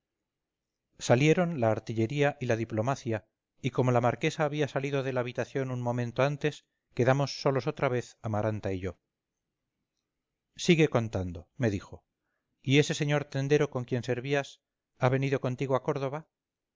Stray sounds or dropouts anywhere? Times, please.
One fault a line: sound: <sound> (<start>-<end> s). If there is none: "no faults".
no faults